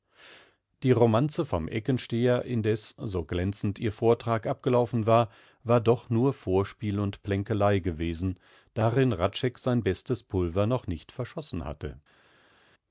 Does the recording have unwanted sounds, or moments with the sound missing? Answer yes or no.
no